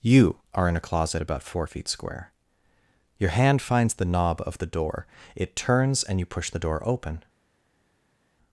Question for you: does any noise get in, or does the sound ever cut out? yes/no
no